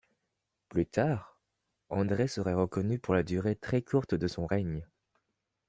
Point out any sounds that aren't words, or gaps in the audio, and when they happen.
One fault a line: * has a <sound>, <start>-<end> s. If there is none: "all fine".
all fine